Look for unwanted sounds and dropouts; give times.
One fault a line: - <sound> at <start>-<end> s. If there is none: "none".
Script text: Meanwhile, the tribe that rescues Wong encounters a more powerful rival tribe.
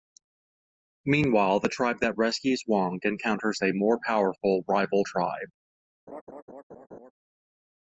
- laugh at 6.1-7.1 s